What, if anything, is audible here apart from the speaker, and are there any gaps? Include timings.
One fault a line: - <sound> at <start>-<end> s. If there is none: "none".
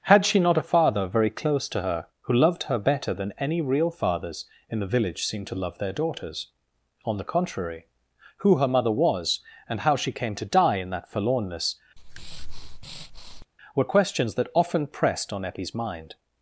- breath at 12.0-13.5 s